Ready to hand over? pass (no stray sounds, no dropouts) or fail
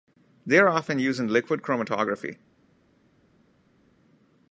pass